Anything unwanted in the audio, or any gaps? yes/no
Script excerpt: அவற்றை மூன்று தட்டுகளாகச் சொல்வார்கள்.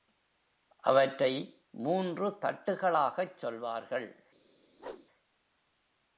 yes